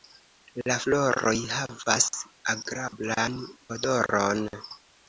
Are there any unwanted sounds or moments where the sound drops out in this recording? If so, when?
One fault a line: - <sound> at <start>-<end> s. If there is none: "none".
- dropout at 2.9-2.9 s